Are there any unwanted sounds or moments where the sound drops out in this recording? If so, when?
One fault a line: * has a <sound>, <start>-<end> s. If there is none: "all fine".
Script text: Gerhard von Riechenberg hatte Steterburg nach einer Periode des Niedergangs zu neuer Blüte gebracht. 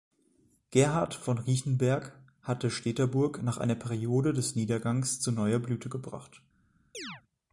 * has a chirp, 6.9-7.2 s